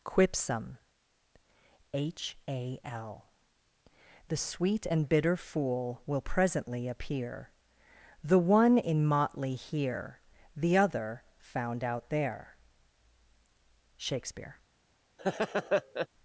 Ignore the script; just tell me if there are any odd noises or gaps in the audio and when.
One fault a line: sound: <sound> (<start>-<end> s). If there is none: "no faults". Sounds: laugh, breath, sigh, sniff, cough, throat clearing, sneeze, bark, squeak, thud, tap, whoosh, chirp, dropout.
sound: laugh (15.2-16.1 s)